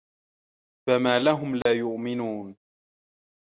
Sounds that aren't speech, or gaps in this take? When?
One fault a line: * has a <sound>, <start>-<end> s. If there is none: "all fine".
* has a dropout, 1.6-1.7 s